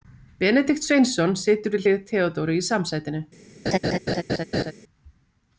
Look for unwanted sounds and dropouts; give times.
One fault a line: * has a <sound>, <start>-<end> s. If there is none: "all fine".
* has a laugh, 3.7-4.7 s